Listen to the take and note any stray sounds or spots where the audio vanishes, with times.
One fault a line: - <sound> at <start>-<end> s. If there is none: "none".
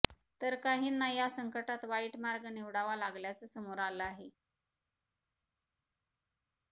none